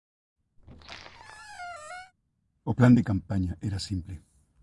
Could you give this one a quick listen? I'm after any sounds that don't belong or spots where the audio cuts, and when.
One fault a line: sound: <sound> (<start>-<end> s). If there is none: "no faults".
sound: squeak (0.6-2.1 s)